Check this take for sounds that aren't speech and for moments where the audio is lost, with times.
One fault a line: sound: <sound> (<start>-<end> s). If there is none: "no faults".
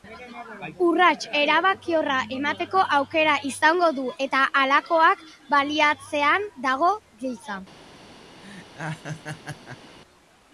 sound: laugh (8.4-10.0 s)